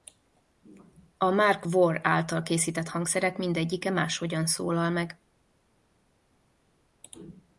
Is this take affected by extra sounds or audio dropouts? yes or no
no